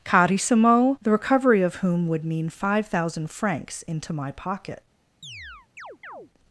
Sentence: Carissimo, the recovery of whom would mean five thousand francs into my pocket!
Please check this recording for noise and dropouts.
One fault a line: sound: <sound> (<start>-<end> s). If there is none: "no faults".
sound: chirp (5.2-6.3 s)